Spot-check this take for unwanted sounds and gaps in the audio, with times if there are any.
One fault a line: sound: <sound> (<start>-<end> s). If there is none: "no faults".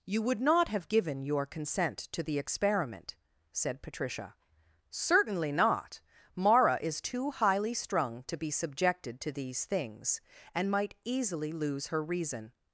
no faults